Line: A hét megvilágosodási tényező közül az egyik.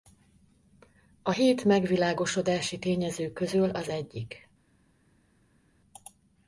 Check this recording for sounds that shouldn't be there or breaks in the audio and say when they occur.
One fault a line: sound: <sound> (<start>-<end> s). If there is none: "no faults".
no faults